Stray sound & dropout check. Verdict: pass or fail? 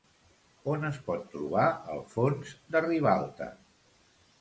pass